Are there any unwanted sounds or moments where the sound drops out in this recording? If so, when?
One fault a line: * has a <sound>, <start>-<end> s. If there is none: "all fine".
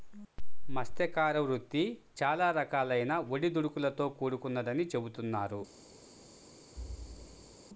* has a thud, 6.8-7.6 s